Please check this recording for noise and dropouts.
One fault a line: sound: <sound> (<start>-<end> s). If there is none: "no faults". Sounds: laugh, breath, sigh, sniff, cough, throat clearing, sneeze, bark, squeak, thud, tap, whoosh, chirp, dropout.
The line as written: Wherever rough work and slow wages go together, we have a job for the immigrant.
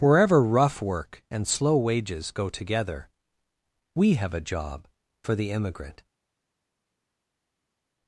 no faults